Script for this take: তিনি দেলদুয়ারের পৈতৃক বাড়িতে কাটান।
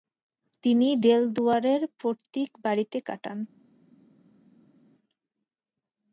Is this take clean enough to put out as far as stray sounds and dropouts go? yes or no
yes